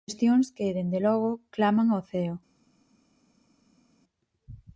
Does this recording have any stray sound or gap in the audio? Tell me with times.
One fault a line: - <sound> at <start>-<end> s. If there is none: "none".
none